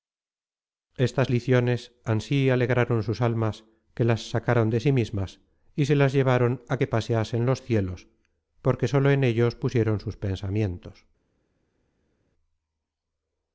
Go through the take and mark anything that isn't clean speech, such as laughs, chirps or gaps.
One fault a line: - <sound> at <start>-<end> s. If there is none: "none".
none